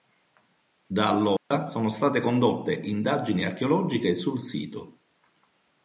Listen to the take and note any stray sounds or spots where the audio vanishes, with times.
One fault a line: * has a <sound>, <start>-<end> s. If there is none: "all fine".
* has a dropout, 1.4-1.5 s